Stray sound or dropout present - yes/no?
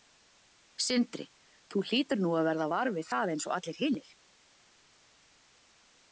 no